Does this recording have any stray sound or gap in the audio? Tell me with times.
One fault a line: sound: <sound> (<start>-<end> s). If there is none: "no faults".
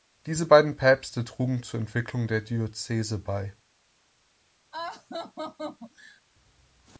sound: laugh (4.7-6.2 s)